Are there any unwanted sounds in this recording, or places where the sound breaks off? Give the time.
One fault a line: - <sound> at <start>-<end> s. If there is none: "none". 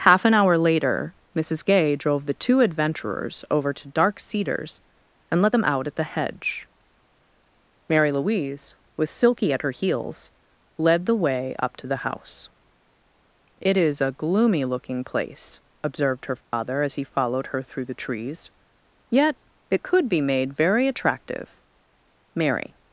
- dropout at 16.4-16.5 s